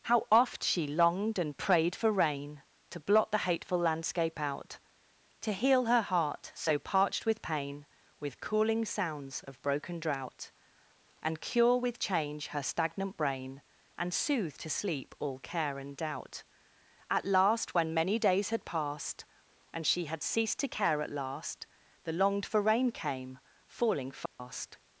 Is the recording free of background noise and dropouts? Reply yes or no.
no